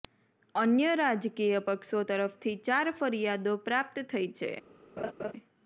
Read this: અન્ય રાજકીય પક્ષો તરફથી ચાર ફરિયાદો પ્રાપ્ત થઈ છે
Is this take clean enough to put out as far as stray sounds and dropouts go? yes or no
no